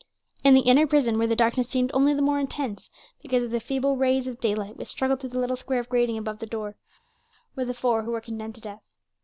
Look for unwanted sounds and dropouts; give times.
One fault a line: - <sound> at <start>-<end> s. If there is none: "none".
none